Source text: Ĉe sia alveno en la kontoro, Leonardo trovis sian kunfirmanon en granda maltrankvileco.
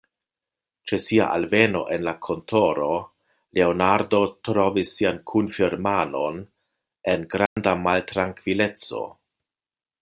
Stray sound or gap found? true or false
true